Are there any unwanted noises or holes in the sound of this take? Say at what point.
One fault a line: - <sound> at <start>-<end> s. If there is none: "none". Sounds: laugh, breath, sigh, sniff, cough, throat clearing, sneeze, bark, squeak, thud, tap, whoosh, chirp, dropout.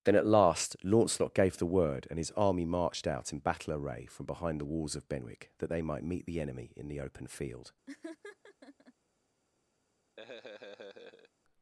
- laugh at 7.9-8.9 s
- laugh at 10.2-11.3 s